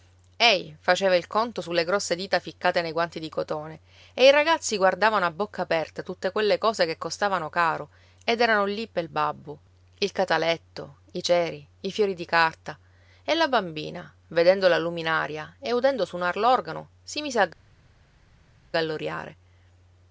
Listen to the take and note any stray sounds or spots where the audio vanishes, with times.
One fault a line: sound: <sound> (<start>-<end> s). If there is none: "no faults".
no faults